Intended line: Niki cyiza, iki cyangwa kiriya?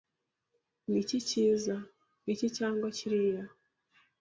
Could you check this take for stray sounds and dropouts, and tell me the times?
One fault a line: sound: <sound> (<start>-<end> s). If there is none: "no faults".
no faults